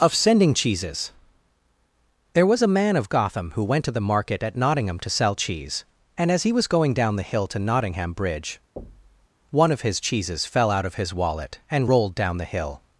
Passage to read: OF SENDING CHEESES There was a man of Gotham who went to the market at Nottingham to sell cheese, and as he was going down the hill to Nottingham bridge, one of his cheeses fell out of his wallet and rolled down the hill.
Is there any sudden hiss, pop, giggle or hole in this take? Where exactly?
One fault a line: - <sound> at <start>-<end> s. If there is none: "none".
- thud at 8.8-9.3 s